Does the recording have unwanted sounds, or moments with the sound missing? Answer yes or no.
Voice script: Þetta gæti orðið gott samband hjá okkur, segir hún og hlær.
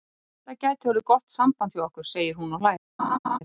yes